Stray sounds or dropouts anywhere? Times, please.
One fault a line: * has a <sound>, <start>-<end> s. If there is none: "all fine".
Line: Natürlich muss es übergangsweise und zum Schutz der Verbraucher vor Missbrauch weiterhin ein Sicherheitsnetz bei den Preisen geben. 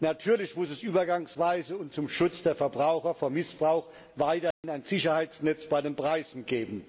* has a dropout, 4.5-4.6 s